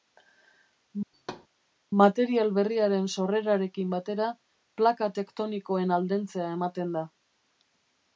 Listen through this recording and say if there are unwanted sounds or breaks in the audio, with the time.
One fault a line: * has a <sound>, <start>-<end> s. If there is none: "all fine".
* has a thud, 1.1-1.5 s